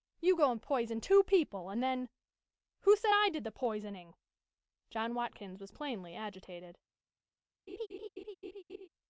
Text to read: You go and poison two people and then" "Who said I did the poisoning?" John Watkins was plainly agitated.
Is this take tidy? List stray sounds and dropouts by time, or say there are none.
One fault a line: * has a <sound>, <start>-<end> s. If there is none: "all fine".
* has a laugh, 7.7-8.9 s